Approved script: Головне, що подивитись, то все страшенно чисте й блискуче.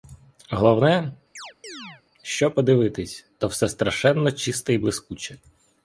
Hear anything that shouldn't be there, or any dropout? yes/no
yes